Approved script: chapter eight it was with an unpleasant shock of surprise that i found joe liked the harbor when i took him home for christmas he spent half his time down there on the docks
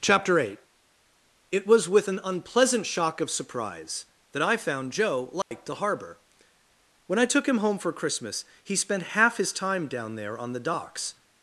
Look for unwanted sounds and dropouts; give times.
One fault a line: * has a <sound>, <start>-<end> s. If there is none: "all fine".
* has a dropout, 5.4-5.5 s